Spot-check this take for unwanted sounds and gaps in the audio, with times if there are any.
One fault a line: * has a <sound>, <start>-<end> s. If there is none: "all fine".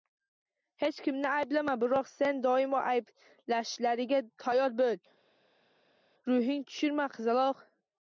all fine